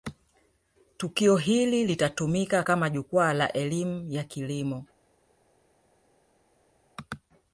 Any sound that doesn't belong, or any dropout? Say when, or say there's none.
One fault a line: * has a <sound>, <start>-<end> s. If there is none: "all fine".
all fine